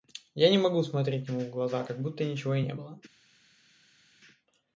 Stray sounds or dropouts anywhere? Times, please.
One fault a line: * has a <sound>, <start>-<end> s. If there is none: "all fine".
all fine